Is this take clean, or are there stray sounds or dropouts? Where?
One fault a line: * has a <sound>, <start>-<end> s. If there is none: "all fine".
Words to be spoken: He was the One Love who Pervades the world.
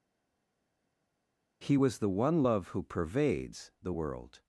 all fine